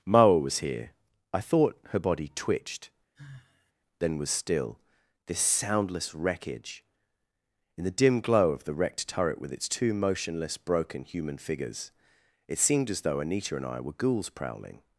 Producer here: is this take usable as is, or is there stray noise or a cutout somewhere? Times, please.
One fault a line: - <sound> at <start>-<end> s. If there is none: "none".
- sigh at 3.1-3.7 s